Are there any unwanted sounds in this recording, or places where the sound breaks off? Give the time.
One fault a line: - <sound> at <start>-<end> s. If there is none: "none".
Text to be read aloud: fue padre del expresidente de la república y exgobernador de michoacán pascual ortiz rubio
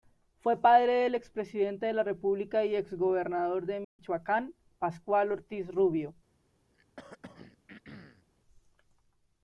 - dropout at 3.8-4.0 s
- throat clearing at 6.7-8.3 s